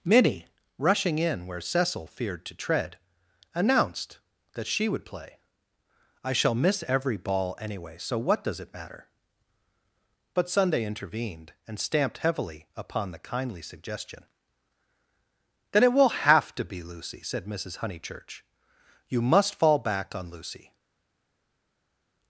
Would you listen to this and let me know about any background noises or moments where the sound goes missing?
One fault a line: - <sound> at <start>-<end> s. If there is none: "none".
none